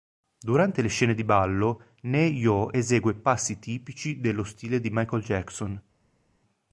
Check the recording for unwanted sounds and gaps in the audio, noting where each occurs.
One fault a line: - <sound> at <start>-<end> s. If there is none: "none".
none